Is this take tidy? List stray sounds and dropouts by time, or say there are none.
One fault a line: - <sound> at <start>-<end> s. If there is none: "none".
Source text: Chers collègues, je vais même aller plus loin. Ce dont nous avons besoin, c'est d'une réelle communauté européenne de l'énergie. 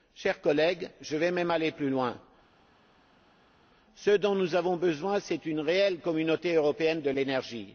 none